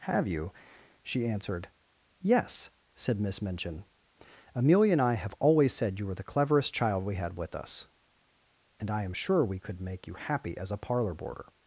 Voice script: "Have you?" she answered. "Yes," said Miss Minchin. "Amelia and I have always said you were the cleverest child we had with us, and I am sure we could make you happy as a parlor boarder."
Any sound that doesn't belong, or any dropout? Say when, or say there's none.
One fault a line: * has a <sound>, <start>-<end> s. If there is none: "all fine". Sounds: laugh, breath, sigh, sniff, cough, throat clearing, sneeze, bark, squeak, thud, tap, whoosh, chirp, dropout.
all fine